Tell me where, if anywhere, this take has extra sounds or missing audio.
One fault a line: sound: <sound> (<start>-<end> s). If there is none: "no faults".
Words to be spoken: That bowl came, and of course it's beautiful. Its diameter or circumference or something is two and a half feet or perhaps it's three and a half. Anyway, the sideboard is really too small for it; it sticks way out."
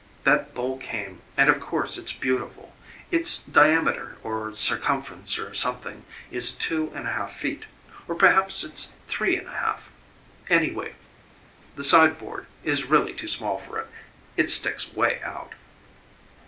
no faults